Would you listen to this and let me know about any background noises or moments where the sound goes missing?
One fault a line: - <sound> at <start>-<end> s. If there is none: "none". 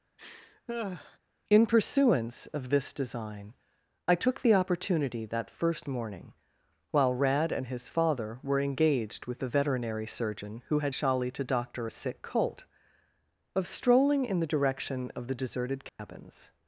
- laugh at 0.2-1.2 s
- dropout at 15.9-16.0 s